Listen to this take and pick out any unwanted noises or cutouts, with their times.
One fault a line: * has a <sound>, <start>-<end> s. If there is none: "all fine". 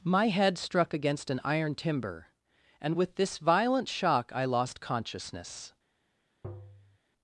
* has a tap, 6.4-7.0 s